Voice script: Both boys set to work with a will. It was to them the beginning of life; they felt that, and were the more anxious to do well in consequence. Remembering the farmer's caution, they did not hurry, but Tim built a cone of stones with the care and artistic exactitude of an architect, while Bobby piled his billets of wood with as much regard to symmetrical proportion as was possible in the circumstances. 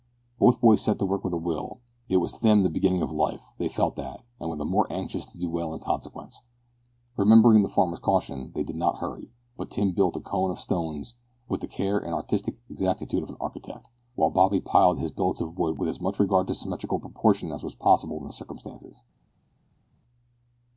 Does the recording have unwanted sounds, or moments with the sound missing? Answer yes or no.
no